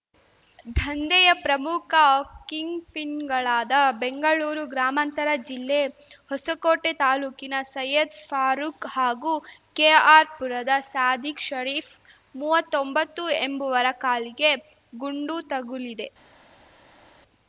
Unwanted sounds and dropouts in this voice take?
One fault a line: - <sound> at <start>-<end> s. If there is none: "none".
none